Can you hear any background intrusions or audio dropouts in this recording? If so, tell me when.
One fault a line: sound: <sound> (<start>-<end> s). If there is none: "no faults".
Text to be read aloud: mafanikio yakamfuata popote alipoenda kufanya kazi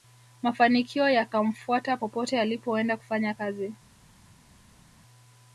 no faults